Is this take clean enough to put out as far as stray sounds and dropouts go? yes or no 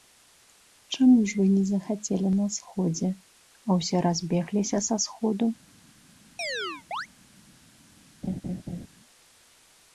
no